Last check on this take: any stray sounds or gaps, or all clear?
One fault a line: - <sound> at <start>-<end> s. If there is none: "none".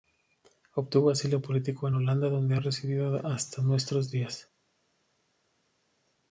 none